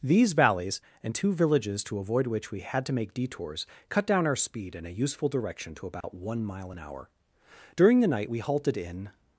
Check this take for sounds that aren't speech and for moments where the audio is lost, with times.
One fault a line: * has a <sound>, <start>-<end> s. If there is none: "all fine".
* has a dropout, 6.0-6.0 s